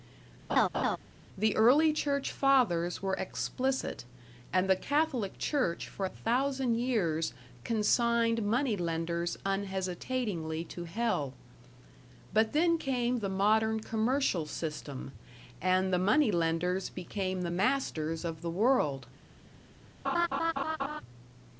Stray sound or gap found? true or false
true